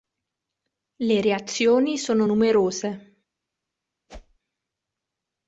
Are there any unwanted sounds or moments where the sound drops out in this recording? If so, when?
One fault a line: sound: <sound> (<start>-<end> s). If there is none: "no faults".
sound: whoosh (4.1-4.4 s)